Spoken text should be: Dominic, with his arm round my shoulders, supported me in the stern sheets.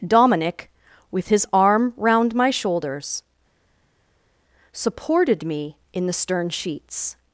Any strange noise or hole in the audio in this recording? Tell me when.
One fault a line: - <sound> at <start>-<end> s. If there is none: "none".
none